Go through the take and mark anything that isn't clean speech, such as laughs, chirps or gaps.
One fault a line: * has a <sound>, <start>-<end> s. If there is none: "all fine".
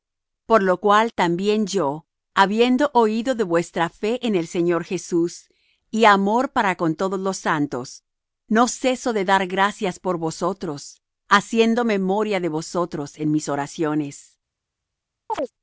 * has a chirp, 15.3-15.5 s